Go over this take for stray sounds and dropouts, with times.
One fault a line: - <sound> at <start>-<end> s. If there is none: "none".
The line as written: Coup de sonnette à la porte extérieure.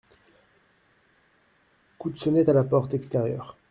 none